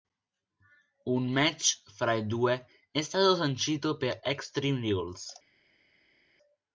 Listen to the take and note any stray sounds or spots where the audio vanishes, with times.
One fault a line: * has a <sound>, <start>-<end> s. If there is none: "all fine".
all fine